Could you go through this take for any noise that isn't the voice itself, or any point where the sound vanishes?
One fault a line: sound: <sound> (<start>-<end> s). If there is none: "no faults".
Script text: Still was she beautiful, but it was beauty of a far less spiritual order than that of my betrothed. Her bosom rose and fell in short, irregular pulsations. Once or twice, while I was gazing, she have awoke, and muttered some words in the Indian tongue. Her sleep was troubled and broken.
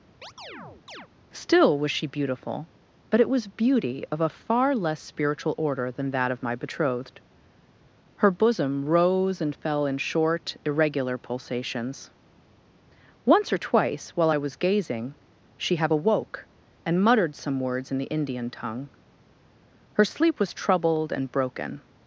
sound: chirp (0.2-1.1 s)